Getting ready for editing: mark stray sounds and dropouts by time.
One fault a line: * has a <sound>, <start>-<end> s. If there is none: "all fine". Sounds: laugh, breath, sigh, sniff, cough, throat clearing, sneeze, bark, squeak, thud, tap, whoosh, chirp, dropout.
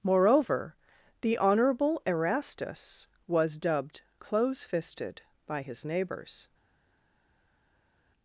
all fine